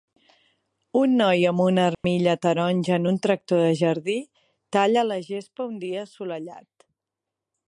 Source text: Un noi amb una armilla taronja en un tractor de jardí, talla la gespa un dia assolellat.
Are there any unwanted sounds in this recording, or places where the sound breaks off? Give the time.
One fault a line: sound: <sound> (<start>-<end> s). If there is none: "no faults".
sound: dropout (1.9-2.0 s)